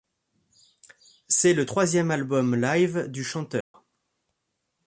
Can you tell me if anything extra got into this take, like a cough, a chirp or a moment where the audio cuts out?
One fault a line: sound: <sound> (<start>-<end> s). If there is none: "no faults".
sound: dropout (3.6-3.7 s)